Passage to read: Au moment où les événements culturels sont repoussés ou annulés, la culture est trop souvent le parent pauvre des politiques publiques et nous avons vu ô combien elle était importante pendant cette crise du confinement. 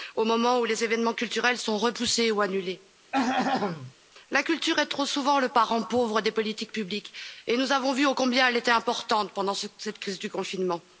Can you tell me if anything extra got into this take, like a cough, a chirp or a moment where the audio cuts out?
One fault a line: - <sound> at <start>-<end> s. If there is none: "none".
- throat clearing at 3.1-3.9 s